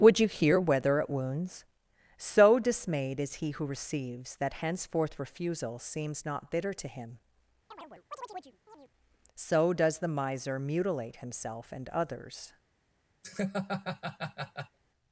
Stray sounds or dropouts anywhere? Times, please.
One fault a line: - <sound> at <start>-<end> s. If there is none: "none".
- chirp at 7.7-8.9 s
- laugh at 13.2-14.8 s